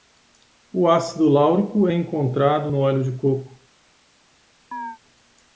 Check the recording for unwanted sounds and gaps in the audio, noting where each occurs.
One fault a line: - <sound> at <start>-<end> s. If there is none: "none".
- chirp at 4.7-5.0 s